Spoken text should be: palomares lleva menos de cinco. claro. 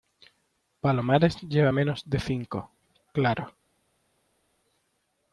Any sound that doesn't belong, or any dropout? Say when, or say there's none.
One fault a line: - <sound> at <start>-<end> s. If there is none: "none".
none